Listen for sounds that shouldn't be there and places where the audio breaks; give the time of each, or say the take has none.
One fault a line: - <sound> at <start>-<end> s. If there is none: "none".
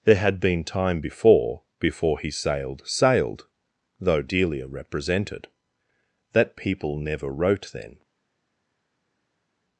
none